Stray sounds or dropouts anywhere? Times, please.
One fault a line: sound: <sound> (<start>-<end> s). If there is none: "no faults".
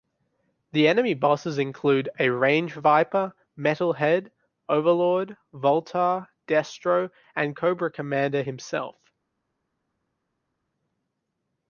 no faults